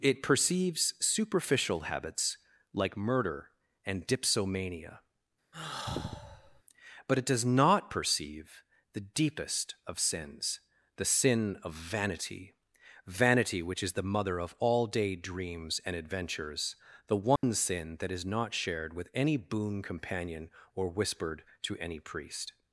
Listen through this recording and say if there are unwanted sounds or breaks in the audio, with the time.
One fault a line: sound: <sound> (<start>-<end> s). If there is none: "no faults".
sound: sigh (5.5-6.6 s)
sound: dropout (17.4-17.4 s)